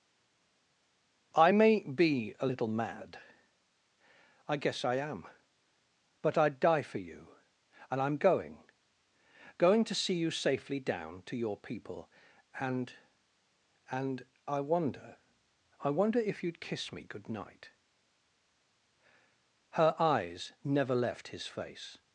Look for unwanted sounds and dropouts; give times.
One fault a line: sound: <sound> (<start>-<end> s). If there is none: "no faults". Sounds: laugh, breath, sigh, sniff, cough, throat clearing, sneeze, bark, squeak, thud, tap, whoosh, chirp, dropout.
no faults